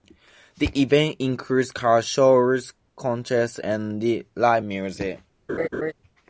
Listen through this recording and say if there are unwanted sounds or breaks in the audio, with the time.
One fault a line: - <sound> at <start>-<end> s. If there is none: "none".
- laugh at 5.5-5.9 s